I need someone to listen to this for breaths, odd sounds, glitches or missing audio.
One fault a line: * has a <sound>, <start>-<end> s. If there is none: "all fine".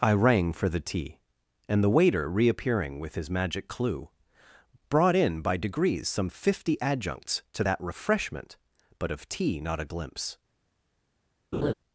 * has a laugh, 11.5-11.7 s